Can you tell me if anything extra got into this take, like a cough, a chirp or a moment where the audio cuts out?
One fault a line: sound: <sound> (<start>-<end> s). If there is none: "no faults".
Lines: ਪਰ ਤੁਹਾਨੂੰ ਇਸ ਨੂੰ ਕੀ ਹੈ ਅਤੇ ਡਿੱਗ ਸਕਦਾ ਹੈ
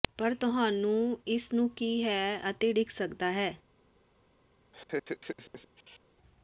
sound: laugh (4.7-6.0 s)